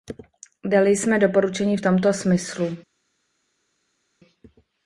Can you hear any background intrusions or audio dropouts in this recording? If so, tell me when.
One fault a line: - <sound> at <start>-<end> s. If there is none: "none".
none